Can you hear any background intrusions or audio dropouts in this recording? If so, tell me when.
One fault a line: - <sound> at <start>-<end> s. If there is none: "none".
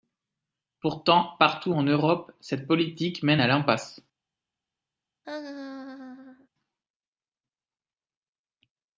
- laugh at 5.2-6.5 s